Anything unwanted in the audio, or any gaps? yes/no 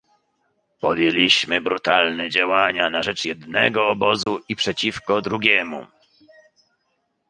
yes